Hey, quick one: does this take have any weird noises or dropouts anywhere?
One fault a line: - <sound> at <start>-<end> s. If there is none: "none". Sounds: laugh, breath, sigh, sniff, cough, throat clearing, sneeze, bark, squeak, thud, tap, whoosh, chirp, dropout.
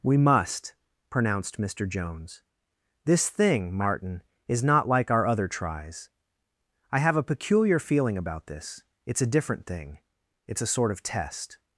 none